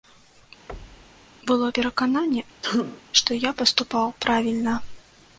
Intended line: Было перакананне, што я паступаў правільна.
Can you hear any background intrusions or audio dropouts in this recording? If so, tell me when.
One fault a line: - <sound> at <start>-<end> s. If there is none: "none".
- thud at 0.7-1.3 s
- sneeze at 2.6-3.0 s